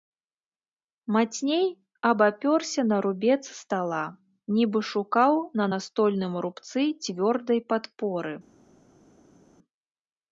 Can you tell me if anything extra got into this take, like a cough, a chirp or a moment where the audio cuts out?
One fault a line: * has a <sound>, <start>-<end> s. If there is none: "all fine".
all fine